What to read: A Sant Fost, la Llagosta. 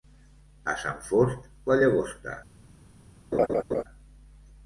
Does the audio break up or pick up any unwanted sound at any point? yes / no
yes